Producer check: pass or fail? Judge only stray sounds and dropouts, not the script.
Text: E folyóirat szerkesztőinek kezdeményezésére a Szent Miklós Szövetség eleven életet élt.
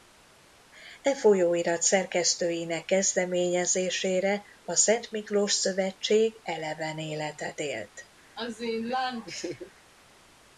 fail